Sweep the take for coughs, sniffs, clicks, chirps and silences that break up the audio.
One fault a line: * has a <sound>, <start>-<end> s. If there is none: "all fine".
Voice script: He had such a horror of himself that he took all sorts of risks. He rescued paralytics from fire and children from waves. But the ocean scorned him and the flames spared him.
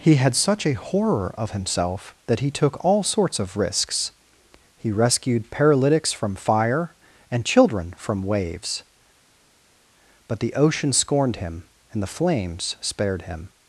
all fine